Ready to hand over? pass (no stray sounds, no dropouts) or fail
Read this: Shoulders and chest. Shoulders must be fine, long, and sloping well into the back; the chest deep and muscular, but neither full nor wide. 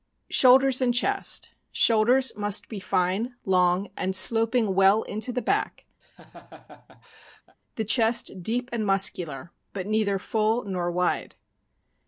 fail